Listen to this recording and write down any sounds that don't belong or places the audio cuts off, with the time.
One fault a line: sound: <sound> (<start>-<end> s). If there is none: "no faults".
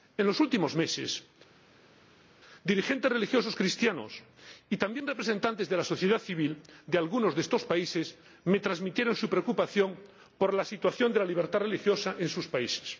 no faults